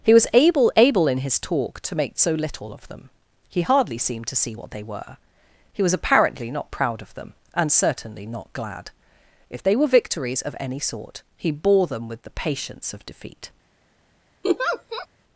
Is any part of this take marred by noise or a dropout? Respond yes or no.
yes